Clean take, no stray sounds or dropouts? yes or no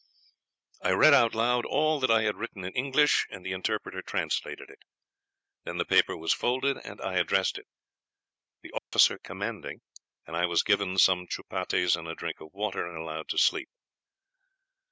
no